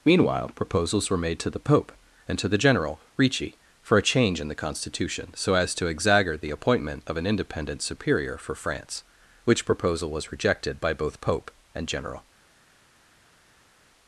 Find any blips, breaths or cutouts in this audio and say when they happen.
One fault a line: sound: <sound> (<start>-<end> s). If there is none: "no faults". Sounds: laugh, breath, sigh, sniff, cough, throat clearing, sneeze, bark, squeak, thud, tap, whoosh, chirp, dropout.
no faults